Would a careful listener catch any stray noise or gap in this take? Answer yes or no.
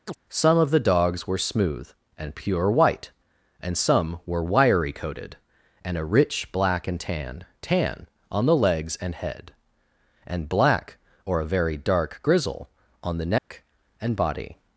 yes